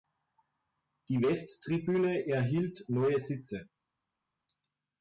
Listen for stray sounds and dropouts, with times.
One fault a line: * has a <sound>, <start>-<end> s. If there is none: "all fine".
all fine